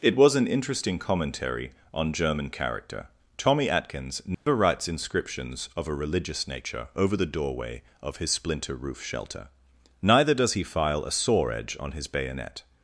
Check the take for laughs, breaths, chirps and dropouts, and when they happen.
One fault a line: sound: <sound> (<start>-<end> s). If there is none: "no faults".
sound: dropout (4.3-4.5 s)